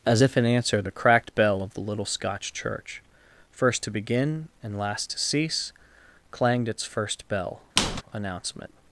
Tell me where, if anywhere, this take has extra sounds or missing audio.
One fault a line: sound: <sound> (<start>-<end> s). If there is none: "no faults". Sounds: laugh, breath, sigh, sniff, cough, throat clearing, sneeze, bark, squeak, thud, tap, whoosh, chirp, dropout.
sound: squeak (7.8-8.0 s)